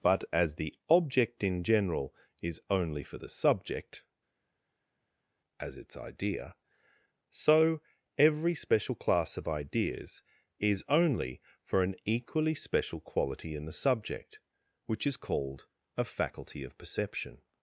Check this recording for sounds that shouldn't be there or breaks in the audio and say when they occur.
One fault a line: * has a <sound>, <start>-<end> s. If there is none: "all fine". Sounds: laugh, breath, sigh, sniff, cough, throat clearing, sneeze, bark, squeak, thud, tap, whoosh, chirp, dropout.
all fine